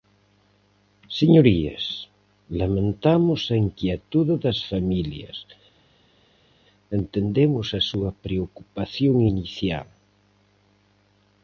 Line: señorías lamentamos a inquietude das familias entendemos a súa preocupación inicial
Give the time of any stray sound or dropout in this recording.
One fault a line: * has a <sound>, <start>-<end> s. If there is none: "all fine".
all fine